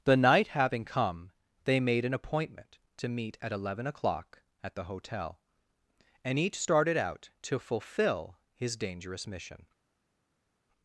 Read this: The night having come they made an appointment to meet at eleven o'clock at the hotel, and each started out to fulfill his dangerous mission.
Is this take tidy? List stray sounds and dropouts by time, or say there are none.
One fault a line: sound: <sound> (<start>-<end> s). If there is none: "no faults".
no faults